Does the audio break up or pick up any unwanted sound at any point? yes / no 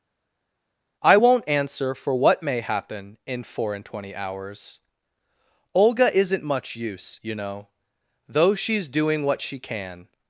no